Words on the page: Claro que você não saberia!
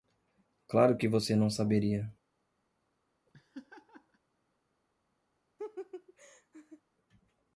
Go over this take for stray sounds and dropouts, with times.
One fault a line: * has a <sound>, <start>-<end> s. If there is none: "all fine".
* has a laugh, 3.3-4.2 s
* has a laugh, 5.6-6.8 s